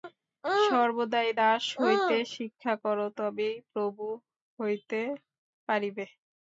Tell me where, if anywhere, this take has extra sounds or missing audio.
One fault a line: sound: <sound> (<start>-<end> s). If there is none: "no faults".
no faults